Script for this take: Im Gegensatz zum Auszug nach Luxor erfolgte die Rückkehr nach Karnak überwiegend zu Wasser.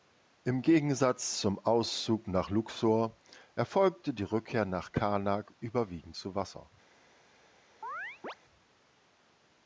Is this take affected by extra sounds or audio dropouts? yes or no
yes